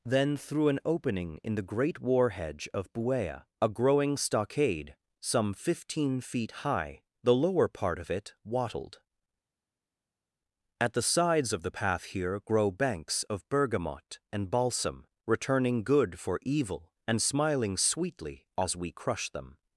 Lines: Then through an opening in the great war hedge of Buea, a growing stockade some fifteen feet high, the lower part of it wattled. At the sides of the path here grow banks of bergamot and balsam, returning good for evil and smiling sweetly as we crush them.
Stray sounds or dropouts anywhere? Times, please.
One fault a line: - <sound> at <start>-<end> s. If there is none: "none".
none